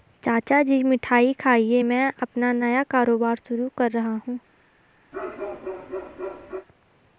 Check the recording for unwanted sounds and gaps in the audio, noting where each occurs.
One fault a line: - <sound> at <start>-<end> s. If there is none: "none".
- bark at 5.1-6.7 s